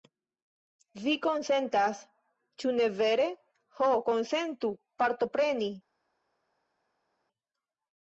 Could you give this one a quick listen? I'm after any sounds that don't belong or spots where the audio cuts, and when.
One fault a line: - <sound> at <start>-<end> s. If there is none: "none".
none